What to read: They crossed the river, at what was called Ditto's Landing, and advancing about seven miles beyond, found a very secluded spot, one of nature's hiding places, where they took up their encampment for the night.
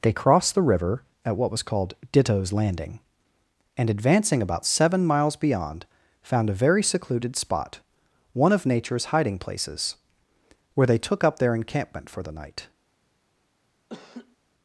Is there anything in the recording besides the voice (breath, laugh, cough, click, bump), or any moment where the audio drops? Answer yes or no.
yes